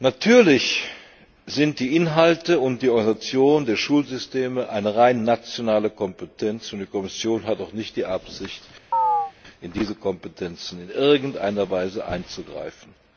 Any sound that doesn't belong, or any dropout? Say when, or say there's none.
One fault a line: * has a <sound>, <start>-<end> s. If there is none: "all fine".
* has a chirp, 8.9-9.3 s